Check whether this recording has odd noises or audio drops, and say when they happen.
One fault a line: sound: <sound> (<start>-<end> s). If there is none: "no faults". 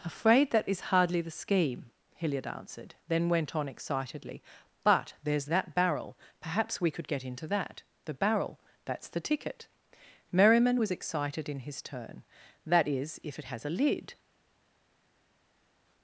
no faults